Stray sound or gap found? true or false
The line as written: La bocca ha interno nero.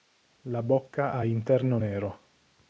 false